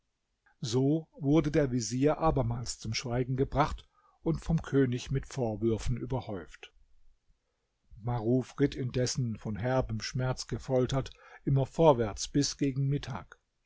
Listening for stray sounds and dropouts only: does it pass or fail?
pass